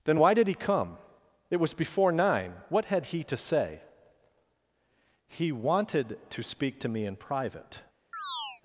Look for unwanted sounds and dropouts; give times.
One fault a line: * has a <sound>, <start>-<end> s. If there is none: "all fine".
* has a chirp, 8.1-8.6 s